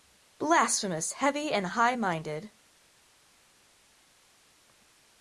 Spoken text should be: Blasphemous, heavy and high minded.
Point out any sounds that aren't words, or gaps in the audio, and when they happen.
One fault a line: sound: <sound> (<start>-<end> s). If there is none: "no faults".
no faults